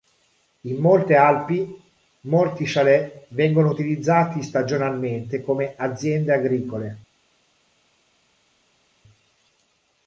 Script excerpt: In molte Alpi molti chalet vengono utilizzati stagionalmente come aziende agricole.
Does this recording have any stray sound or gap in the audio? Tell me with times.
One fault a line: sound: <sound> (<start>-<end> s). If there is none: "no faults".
no faults